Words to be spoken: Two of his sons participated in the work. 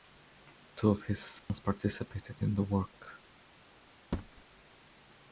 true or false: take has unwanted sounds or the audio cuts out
true